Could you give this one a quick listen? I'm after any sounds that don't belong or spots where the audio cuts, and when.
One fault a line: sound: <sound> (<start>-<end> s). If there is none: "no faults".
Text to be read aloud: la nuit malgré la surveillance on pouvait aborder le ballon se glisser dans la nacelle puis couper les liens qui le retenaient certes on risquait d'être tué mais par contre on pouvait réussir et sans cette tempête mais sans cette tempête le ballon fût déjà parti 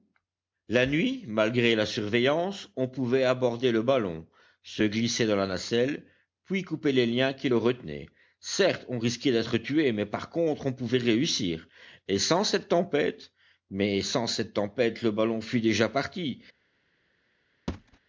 sound: thud (17.7-18.0 s)